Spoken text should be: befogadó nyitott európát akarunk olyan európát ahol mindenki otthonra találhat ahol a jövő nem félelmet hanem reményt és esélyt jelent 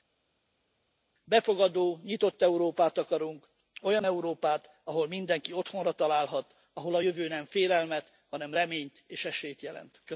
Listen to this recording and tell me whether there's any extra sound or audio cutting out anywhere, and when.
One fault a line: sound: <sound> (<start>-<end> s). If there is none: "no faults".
no faults